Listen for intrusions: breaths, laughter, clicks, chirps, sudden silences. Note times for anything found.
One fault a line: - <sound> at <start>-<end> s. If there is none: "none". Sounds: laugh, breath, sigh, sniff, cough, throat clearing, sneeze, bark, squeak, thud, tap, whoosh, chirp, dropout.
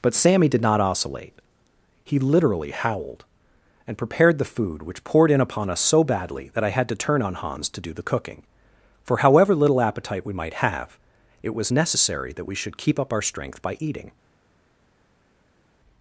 none